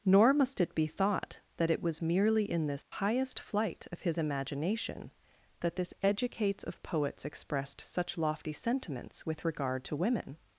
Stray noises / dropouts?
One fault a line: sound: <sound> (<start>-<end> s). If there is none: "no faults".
sound: dropout (2.8-2.9 s)